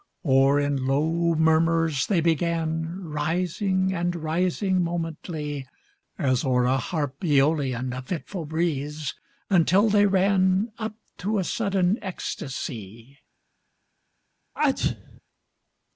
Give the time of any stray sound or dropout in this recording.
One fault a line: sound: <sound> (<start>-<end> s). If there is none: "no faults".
sound: sneeze (14.6-15.2 s)